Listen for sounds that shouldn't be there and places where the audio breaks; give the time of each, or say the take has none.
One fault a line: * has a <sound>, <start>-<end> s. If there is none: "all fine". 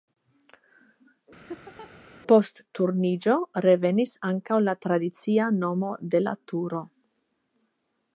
* has a laugh, 1.5-1.9 s